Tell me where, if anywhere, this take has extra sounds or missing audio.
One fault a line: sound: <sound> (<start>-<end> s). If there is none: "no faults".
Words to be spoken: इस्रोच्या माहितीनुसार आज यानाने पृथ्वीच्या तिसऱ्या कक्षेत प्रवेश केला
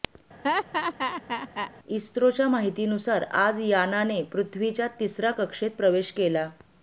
sound: laugh (0.4-1.7 s)